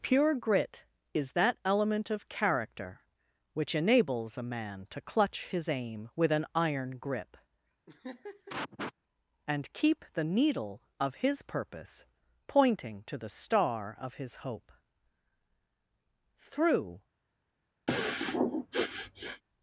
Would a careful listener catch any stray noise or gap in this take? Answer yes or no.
yes